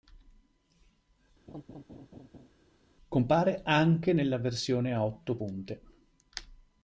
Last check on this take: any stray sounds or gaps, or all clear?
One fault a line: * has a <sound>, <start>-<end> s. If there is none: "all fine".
* has a laugh, 1.5-2.5 s